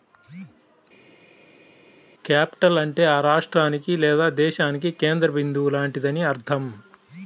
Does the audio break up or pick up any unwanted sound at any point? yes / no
no